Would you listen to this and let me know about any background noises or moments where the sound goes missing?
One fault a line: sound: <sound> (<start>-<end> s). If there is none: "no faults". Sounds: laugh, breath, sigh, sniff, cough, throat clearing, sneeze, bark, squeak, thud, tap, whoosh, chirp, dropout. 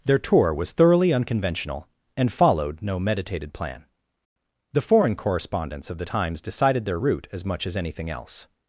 no faults